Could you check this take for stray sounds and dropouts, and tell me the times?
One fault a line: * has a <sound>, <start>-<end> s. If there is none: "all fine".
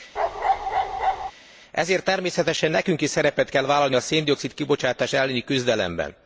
* has a bark, 0.2-1.3 s